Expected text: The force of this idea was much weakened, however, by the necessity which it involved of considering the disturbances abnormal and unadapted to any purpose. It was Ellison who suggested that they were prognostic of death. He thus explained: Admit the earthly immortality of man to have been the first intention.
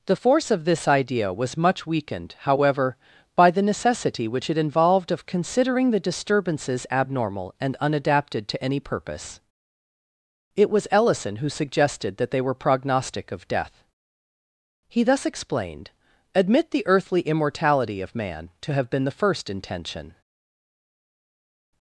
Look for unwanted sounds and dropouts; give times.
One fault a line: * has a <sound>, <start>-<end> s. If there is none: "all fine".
all fine